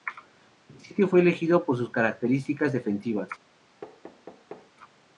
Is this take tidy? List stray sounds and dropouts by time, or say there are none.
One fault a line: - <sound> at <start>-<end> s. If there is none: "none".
- thud at 3.8-4.7 s